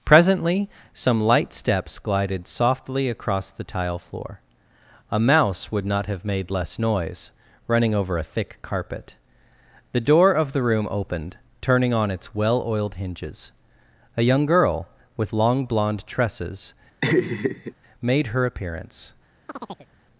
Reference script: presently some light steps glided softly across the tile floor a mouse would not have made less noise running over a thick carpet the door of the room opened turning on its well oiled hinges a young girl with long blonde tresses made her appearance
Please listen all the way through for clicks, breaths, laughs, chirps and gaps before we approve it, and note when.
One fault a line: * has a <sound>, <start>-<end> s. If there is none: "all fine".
* has a laugh, 17.0-17.7 s
* has a chirp, 19.5-19.9 s